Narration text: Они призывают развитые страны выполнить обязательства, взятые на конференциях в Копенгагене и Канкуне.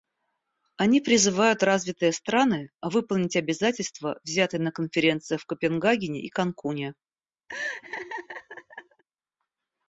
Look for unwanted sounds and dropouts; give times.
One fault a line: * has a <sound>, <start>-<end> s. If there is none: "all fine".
* has a laugh, 7.5-9.0 s